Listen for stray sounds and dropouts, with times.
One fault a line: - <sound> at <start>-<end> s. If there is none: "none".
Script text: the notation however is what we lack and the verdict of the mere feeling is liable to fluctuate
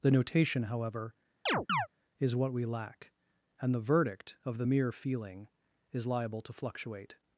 - chirp at 1.5-1.9 s